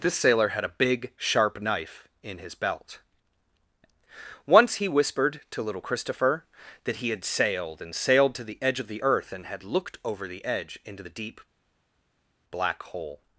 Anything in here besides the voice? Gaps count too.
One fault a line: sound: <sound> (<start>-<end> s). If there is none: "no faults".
no faults